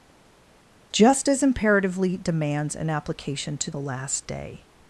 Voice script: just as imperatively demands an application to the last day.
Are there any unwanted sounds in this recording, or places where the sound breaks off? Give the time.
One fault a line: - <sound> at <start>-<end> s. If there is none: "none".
none